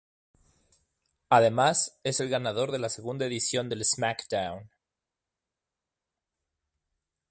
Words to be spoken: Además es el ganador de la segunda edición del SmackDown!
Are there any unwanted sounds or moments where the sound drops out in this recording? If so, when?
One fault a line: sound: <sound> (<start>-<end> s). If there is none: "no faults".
no faults